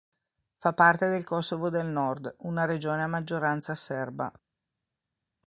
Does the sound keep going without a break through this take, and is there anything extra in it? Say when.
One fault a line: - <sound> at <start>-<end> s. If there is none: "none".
none